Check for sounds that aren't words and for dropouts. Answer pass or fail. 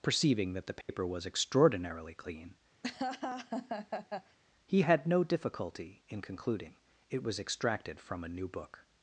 fail